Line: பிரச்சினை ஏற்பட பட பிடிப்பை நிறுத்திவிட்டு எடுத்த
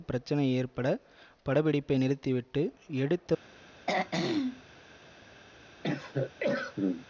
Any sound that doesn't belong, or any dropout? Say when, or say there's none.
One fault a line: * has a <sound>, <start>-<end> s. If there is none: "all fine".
* has a throat clearing, 3.9-4.7 s
* has a cough, 5.8-7.1 s